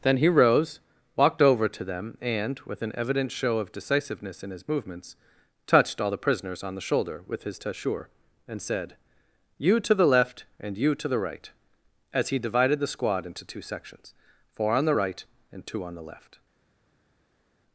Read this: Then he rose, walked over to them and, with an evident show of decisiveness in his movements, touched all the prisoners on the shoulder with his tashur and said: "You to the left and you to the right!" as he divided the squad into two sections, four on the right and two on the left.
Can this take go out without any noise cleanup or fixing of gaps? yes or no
yes